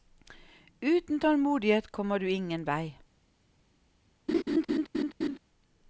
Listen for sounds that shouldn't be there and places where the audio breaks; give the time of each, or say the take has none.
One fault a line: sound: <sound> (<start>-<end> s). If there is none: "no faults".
sound: laugh (4.3-5.4 s)